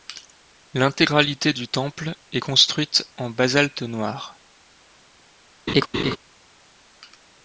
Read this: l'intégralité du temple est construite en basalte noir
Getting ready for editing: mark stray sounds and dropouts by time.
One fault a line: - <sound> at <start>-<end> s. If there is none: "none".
- laugh at 5.7-6.2 s